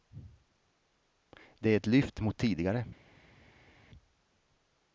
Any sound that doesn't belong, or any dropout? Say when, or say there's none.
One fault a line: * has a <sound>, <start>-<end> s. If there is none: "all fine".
all fine